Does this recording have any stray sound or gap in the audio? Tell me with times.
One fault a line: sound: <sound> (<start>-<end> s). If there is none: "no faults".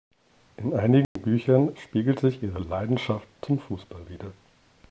sound: dropout (1.0-1.2 s)